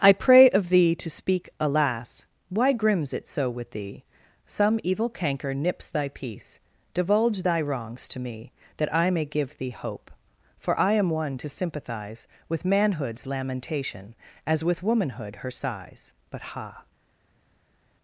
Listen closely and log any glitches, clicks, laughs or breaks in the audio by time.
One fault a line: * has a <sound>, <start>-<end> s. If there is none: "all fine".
all fine